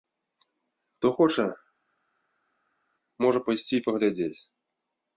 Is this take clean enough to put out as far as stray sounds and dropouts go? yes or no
yes